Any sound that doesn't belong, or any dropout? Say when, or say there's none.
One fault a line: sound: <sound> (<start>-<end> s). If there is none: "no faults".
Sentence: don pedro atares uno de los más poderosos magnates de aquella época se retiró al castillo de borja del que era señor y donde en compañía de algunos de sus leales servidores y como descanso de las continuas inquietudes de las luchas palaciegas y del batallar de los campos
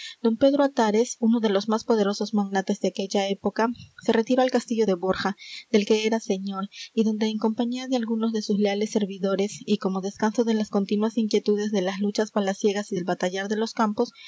no faults